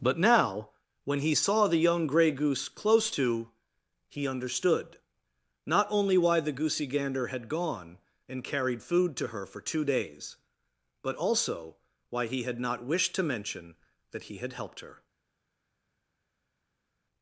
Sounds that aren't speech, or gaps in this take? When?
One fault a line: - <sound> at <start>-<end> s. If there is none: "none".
none